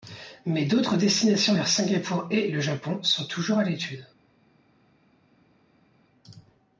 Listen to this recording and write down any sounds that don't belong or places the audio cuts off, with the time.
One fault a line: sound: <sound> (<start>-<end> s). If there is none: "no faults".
no faults